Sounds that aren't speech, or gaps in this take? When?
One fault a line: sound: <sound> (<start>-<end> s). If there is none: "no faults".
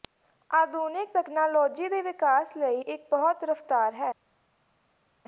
no faults